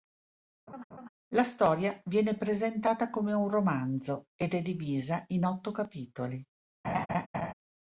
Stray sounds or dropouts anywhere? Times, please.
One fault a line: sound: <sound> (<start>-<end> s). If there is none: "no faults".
sound: laugh (0.7-1.1 s)
sound: laugh (6.8-7.5 s)